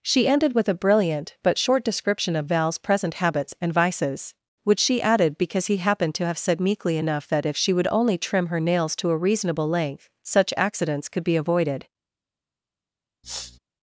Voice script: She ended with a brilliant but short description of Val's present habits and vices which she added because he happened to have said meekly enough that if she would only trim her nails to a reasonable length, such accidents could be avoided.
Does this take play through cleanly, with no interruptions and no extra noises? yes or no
no